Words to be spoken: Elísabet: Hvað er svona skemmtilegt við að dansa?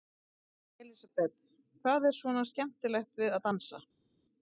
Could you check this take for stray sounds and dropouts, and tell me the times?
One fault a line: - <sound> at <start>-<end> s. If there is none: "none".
none